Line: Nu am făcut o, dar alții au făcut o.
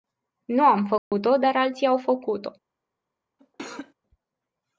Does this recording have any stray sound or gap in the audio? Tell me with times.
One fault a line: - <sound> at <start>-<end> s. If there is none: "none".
- dropout at 1.0-1.1 s
- cough at 3.4-3.9 s